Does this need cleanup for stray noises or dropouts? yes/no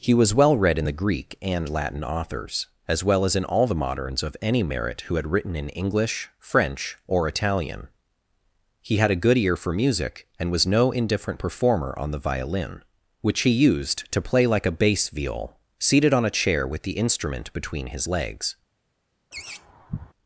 yes